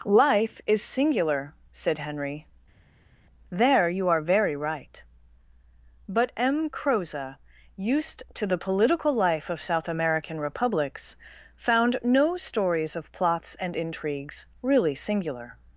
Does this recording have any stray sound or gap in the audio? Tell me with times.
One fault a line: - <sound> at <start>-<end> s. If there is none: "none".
none